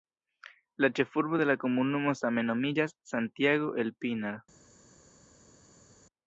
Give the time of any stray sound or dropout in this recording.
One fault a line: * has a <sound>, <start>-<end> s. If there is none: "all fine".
all fine